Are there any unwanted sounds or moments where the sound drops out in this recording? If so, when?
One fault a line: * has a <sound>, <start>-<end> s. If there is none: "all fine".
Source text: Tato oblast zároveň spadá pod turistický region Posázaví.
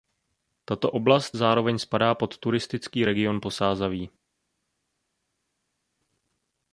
all fine